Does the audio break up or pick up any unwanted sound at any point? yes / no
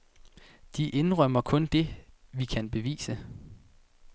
no